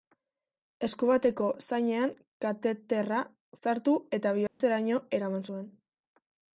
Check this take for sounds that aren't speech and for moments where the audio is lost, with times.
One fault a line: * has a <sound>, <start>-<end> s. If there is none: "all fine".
* has a dropout, 4.5-4.6 s